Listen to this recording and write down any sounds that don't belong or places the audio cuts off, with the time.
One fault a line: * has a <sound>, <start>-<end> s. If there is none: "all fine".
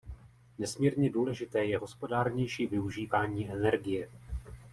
all fine